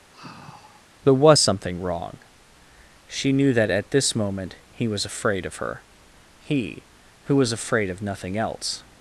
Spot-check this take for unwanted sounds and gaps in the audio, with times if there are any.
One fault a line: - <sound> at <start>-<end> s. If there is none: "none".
- sigh at 0.1-0.9 s